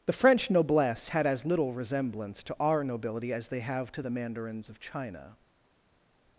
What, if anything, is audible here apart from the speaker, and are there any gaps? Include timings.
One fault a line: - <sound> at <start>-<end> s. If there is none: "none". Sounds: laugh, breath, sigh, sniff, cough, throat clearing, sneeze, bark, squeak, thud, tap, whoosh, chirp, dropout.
none